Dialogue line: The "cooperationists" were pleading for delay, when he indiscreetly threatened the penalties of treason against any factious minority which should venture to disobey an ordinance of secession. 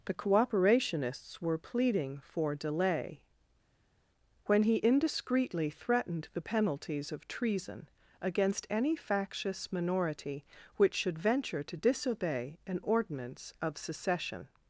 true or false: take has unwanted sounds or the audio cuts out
false